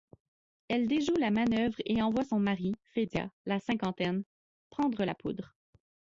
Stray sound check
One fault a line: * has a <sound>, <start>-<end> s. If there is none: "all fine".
all fine